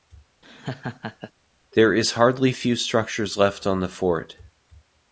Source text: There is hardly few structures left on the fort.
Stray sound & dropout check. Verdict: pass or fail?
fail